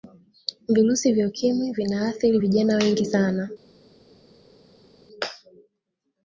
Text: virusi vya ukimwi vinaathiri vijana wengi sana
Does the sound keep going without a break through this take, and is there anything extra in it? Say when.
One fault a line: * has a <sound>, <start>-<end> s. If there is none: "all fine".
all fine